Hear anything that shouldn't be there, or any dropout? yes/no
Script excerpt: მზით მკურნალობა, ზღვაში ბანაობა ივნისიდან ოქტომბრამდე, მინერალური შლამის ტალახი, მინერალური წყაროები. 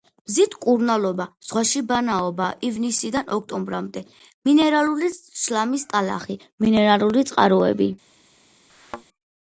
yes